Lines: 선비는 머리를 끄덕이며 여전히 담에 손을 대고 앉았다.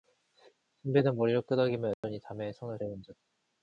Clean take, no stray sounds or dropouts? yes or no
no